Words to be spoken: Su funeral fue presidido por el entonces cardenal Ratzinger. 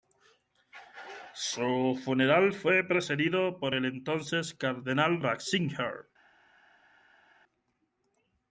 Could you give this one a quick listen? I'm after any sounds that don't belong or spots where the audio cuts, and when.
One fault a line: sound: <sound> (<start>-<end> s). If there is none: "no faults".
no faults